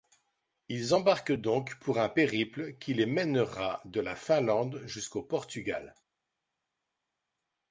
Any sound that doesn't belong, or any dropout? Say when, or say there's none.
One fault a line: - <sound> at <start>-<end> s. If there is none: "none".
none